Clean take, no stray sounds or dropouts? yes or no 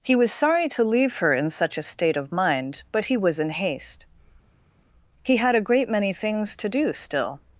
yes